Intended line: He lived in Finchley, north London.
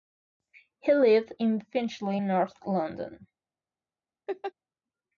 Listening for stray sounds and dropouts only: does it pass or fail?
fail